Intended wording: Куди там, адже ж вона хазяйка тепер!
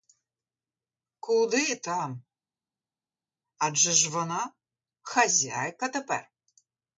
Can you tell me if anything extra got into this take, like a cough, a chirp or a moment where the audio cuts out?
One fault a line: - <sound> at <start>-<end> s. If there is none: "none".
none